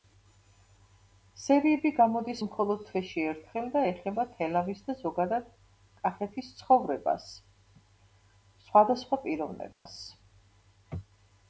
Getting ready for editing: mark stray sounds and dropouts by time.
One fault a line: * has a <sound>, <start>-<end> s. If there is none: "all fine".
* has a dropout, 9.7-9.9 s